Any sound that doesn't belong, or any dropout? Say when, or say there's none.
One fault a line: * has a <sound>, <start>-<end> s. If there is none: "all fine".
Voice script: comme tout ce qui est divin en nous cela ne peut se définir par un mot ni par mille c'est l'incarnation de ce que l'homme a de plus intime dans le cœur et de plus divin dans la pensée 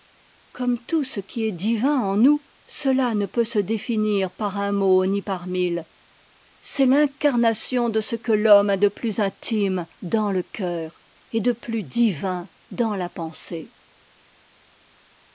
all fine